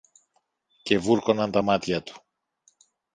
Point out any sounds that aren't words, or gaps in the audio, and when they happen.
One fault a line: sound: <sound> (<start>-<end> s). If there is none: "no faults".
no faults